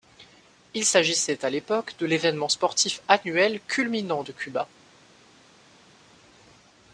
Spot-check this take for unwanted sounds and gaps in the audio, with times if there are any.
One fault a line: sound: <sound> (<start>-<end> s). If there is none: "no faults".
no faults